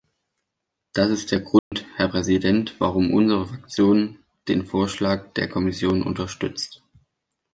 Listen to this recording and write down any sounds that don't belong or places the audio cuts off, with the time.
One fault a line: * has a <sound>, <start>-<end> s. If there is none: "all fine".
* has a dropout, 1.6-1.7 s